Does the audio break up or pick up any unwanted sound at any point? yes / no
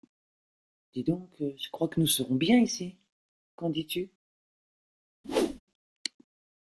yes